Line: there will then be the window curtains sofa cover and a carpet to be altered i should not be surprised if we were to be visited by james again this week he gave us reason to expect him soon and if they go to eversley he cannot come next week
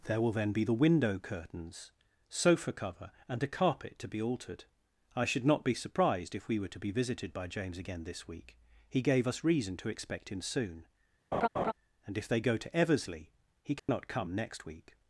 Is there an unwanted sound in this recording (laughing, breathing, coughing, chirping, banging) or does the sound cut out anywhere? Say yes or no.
yes